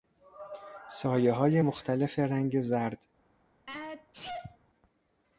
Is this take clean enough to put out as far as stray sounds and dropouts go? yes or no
no